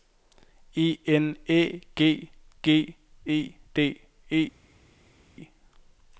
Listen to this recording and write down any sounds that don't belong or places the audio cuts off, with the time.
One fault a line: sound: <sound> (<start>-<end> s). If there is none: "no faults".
no faults